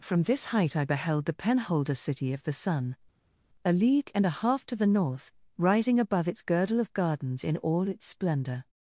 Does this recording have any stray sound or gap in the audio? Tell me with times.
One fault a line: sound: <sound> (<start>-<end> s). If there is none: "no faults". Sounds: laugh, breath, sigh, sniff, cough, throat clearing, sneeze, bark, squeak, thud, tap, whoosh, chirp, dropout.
no faults